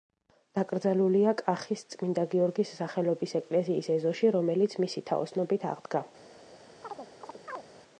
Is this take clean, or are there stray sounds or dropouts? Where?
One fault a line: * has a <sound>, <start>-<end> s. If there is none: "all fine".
* has a chirp, 6.8-7.6 s